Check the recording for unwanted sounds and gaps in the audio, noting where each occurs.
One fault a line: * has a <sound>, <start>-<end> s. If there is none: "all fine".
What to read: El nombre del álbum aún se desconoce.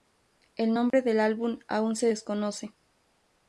* has a dropout, 0.9-0.9 s